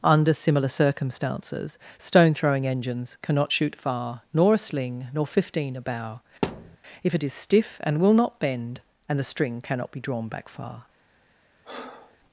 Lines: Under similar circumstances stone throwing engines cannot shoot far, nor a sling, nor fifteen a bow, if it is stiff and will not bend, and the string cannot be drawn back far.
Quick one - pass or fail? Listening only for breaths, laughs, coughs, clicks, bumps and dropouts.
fail